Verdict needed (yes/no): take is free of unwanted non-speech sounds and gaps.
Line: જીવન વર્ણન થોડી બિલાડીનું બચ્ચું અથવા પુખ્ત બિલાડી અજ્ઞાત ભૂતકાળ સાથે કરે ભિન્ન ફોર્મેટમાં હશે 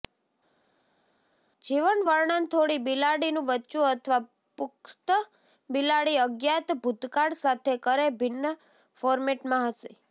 yes